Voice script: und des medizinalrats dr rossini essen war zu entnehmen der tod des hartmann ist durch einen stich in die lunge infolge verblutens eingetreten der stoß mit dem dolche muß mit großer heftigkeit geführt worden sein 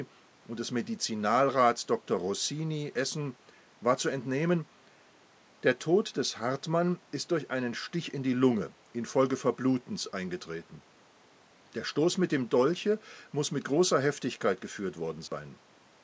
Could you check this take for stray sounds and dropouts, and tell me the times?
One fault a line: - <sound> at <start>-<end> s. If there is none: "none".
- dropout at 15.3-15.3 s